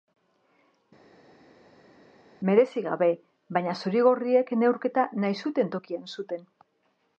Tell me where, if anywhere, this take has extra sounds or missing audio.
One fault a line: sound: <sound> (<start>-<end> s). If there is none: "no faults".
no faults